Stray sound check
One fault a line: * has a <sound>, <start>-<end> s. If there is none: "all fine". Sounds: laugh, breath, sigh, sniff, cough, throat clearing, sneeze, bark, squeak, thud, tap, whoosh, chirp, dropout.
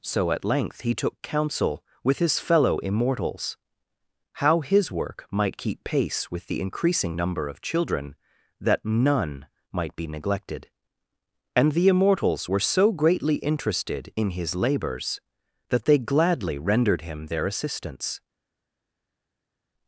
all fine